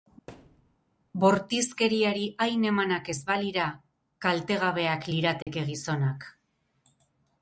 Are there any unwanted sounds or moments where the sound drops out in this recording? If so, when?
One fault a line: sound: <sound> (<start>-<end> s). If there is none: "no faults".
sound: thud (0.3-0.8 s)
sound: dropout (5.4-5.5 s)